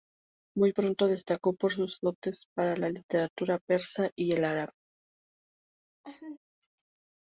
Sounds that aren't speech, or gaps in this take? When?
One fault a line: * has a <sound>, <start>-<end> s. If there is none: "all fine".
* has a laugh, 6.0-6.4 s